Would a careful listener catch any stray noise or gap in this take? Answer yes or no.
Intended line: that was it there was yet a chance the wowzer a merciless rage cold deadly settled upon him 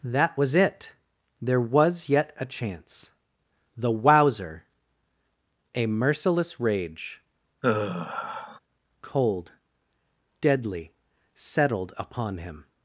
yes